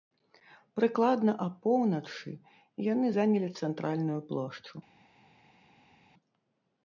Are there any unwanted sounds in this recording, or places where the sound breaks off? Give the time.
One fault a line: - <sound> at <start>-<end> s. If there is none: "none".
none